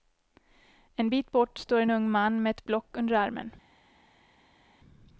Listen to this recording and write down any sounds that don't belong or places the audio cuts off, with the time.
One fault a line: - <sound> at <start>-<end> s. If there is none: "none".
none